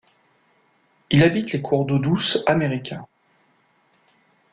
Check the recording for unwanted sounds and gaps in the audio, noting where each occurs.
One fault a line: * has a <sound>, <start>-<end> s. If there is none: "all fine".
all fine